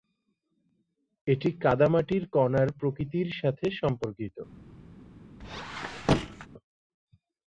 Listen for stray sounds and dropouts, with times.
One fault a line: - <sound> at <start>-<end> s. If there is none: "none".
- squeak at 5.4-6.5 s